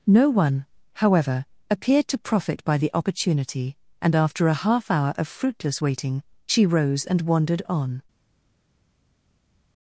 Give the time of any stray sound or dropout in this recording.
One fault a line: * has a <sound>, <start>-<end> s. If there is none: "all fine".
all fine